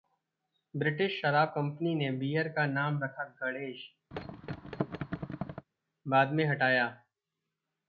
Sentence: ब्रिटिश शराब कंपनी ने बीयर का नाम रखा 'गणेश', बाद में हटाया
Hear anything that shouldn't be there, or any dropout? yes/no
yes